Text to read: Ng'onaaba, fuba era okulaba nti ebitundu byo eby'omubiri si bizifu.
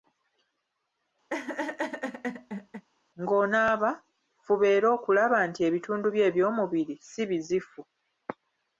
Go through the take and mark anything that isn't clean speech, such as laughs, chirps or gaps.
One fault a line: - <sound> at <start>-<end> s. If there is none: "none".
- laugh at 1.3-2.9 s